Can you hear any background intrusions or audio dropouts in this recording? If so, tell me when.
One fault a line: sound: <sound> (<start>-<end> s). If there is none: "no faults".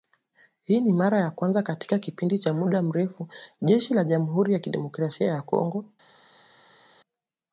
no faults